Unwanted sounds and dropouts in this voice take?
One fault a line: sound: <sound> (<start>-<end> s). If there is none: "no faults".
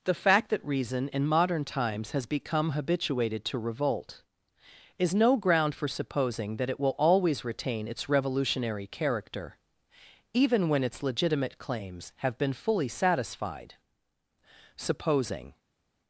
no faults